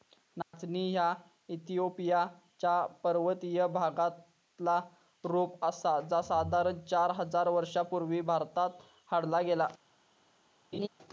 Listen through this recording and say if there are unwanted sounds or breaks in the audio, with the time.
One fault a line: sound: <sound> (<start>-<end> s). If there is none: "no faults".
sound: dropout (0.4-0.5 s)
sound: laugh (10.7-10.9 s)